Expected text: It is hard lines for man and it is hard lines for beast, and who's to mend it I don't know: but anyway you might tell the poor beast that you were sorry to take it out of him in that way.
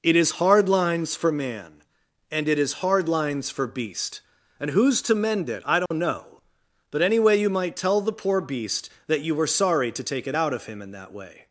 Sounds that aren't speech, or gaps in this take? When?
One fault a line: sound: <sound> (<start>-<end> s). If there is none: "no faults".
sound: dropout (5.9-5.9 s)